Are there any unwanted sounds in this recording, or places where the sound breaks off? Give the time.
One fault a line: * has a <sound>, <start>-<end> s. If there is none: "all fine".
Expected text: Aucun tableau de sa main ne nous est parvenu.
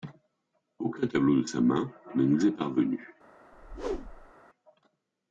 * has a whoosh, 3.5-4.3 s